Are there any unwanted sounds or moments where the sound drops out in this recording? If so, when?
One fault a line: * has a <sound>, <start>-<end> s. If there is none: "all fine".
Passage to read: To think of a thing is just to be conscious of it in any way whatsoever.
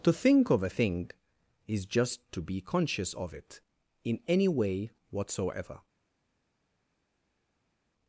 all fine